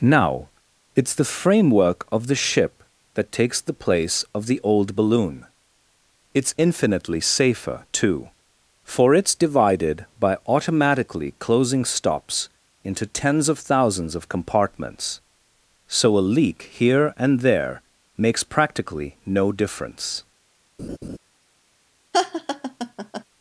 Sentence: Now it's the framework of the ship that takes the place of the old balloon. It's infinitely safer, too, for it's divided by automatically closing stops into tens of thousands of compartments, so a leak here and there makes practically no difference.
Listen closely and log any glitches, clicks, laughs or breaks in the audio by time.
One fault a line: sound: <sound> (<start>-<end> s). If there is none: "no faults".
sound: laugh (20.8-21.2 s)
sound: laugh (22.1-23.2 s)